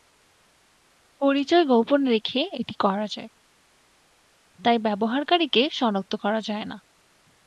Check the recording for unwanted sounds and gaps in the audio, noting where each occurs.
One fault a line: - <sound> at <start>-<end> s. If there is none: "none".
none